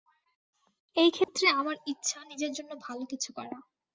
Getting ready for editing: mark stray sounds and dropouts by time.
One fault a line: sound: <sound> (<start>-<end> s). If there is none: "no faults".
sound: dropout (1.2-1.3 s)